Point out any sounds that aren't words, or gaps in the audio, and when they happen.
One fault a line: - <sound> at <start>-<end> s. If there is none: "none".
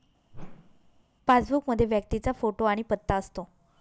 - whoosh at 0.3-1.0 s